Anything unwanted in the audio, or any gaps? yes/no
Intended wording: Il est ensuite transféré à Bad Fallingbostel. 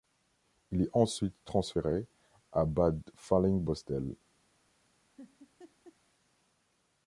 yes